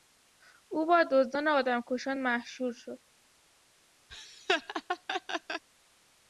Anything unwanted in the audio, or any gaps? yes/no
yes